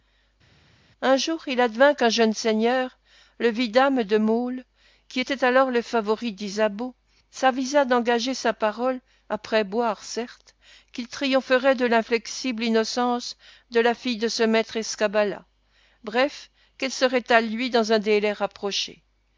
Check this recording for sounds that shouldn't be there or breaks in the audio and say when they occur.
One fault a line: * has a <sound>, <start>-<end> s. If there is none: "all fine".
all fine